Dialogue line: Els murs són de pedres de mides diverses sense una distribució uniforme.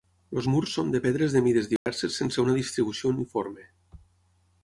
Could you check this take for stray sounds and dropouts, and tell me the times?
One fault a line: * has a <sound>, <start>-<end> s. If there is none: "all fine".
* has a dropout, 1.8-1.9 s